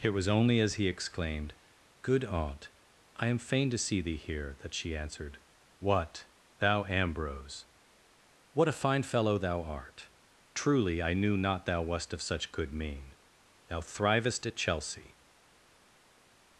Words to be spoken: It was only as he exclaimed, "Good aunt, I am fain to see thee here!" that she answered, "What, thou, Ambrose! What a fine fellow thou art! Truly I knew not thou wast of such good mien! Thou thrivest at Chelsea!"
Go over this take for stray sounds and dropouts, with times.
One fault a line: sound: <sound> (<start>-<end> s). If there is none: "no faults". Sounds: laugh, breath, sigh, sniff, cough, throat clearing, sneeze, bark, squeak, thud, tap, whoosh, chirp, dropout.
no faults